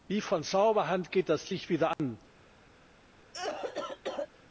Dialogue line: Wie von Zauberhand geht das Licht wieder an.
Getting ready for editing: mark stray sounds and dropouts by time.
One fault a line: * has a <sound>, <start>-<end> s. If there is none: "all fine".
* has a dropout, 1.9-2.0 s
* has a cough, 3.3-4.3 s